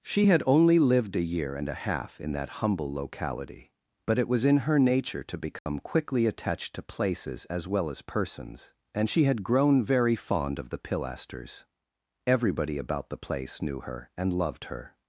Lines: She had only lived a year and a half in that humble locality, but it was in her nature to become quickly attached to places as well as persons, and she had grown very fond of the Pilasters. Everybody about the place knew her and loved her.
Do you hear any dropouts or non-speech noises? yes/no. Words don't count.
yes